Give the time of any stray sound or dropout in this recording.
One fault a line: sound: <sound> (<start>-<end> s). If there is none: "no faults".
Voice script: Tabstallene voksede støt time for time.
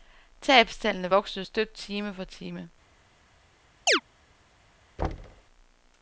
sound: chirp (3.9-4.0 s)
sound: thud (5.0-5.4 s)